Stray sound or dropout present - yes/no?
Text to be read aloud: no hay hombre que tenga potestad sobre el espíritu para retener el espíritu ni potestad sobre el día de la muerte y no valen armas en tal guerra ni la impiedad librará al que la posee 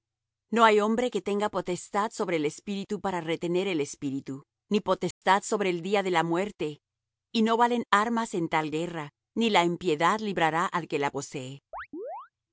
yes